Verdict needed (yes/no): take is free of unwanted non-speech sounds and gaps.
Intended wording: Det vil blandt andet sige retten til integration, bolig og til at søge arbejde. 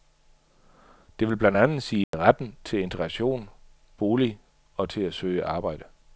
no